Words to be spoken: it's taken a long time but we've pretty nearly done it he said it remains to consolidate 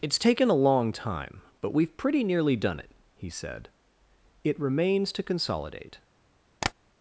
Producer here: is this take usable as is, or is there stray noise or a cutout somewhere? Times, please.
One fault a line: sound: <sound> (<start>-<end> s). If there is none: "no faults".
sound: tap (6.6-6.7 s)